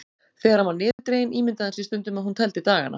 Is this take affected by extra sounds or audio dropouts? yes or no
yes